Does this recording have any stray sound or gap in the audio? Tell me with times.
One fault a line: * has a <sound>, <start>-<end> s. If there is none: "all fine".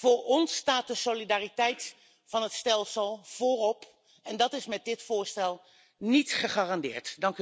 all fine